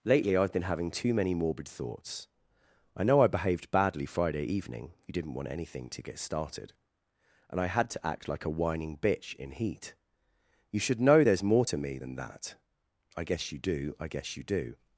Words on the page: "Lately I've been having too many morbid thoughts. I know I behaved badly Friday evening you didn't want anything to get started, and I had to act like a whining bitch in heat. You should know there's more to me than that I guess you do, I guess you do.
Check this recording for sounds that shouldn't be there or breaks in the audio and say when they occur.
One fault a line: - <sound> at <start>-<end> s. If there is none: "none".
none